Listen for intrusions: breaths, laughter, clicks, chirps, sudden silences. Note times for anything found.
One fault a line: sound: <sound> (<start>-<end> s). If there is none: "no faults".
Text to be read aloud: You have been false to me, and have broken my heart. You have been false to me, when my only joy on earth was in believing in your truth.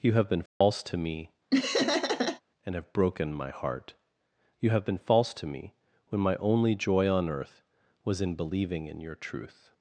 sound: dropout (0.5-0.6 s)
sound: laugh (1.5-2.4 s)